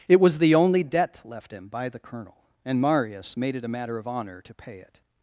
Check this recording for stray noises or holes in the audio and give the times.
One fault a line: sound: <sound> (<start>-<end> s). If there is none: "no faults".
no faults